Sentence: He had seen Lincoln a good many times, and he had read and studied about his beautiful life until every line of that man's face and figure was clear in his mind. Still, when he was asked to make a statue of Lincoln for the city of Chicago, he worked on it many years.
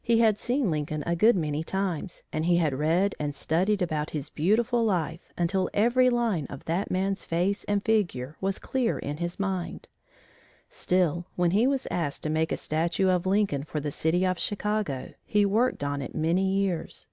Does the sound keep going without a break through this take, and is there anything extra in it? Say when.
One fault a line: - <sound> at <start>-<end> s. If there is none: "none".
none